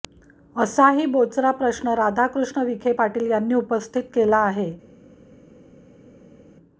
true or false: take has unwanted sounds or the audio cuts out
false